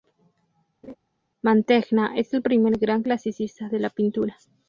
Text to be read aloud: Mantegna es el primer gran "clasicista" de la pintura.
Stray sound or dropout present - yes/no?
yes